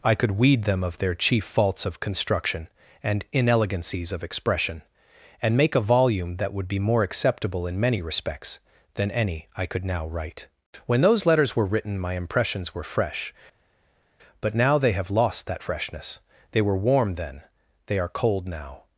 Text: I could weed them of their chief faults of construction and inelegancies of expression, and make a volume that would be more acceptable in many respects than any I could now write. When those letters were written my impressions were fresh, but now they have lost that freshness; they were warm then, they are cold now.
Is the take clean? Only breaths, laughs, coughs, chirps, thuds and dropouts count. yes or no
yes